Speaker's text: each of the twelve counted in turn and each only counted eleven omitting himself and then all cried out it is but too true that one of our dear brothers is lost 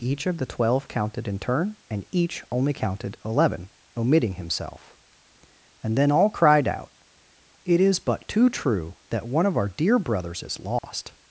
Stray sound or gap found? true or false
true